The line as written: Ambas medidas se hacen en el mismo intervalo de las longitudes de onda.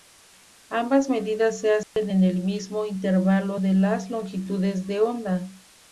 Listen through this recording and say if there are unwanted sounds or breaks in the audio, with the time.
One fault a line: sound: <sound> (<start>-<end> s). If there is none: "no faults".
sound: dropout (1.8-2.0 s)